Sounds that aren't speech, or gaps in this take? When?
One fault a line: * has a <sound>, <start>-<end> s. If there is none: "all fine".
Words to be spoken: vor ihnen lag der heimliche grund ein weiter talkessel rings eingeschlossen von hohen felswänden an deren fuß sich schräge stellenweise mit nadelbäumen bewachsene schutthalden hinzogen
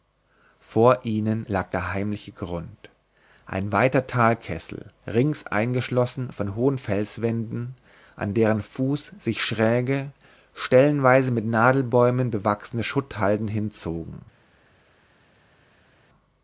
all fine